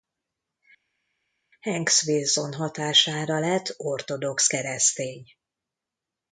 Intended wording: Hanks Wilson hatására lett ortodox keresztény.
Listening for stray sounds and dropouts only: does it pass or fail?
pass